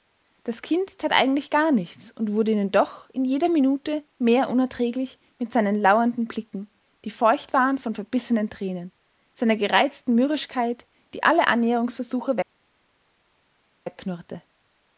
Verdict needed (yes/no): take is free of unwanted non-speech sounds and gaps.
yes